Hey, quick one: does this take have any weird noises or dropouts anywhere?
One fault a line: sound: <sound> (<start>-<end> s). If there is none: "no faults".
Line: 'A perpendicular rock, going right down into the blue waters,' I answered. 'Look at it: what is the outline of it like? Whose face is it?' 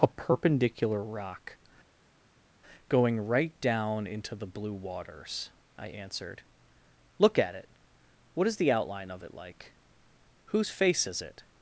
no faults